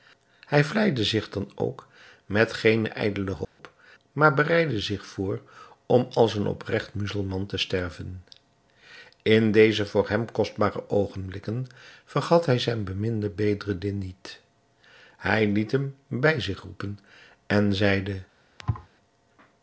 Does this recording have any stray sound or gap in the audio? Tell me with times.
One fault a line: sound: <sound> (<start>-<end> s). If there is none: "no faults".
sound: dropout (3.4-3.6 s)
sound: thud (18.6-18.9 s)